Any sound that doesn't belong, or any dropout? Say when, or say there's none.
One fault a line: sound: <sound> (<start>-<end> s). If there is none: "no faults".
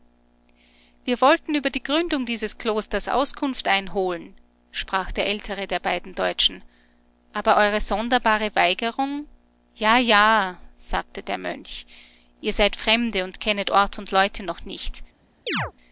sound: chirp (15.5-15.7 s)